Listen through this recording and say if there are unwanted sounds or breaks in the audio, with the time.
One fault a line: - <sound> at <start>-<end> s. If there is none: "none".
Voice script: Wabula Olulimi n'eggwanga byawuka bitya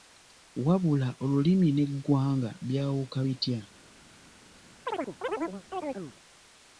- chirp at 4.9-6.1 s